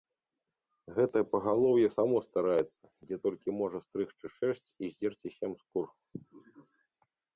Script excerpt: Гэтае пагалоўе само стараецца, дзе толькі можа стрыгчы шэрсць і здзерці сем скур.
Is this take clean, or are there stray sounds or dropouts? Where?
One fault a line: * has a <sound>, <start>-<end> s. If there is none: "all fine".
all fine